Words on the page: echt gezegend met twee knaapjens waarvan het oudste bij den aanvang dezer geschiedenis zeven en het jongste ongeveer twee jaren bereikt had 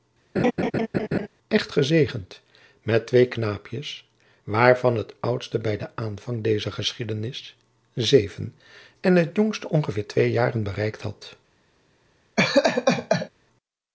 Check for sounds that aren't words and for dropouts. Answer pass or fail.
fail